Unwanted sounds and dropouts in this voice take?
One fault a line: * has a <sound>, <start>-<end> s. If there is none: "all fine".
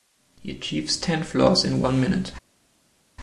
all fine